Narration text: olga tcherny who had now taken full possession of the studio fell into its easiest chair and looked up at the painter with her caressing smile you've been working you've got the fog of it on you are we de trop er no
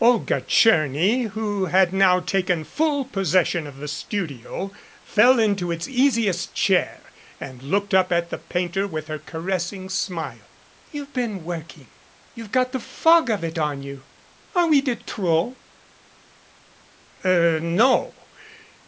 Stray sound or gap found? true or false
false